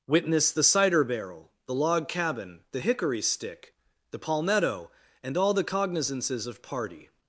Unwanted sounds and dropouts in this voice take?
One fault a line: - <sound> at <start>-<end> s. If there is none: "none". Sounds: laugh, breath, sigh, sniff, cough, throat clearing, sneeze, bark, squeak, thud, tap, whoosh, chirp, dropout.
none